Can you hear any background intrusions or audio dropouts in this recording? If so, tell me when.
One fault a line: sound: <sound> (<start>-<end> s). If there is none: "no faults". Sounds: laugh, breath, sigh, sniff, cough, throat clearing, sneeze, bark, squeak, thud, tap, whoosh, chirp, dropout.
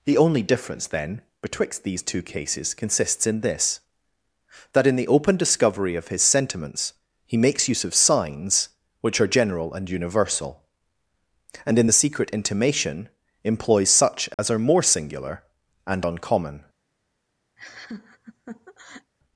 sound: dropout (14.3-14.4 s)
sound: laugh (17.6-19.1 s)